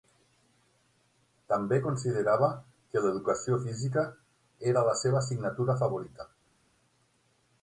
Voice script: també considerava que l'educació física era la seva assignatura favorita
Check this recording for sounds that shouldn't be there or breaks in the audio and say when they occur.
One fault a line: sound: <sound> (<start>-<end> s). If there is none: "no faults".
no faults